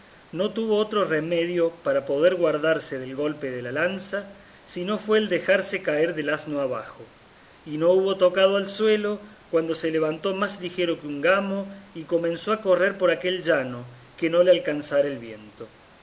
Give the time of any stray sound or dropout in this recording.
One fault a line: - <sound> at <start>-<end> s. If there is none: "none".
none